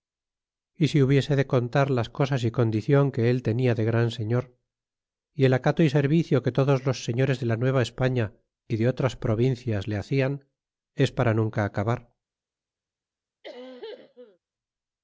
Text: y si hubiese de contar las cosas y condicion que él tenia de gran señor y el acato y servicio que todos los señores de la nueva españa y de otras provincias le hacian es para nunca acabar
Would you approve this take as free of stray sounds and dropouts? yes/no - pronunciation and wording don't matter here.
no